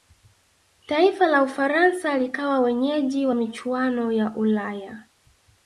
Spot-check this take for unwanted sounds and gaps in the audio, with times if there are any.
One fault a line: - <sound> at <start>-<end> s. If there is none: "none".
none